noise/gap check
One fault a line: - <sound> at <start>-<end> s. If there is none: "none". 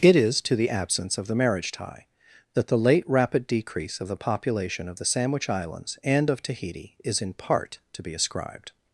none